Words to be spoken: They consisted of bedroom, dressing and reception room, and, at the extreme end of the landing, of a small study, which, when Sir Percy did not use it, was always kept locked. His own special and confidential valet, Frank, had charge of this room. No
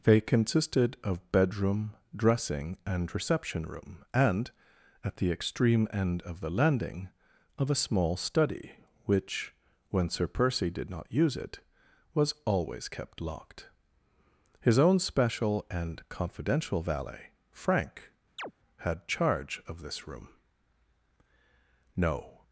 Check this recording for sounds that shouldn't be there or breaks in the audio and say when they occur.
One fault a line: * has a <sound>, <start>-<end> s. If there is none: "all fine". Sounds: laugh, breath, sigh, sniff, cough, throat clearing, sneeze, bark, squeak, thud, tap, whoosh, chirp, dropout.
* has a chirp, 18.4-18.5 s